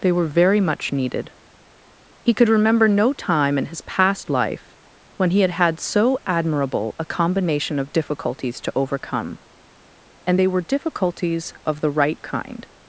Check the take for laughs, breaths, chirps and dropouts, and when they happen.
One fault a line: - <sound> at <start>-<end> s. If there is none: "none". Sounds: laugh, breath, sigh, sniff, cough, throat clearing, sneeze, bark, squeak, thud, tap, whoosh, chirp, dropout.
none